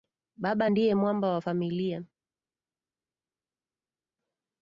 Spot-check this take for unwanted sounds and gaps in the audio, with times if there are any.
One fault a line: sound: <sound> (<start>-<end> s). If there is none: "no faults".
no faults